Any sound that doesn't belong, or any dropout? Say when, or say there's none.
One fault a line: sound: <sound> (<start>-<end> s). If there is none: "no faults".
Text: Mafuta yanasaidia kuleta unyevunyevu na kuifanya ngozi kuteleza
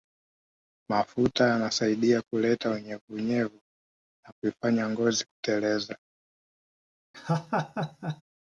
sound: laugh (7.1-8.2 s)